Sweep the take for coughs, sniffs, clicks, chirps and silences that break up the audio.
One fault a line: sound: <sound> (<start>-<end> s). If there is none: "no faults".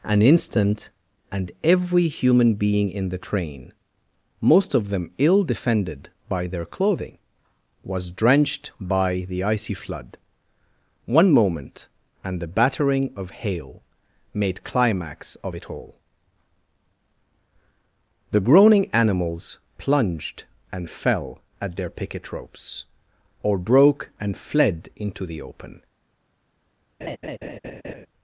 sound: laugh (27.0-28.1 s)